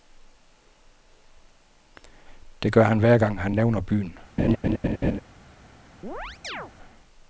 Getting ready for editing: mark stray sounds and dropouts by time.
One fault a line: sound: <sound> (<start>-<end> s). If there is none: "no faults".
sound: laugh (4.4-5.2 s)
sound: chirp (6.0-6.7 s)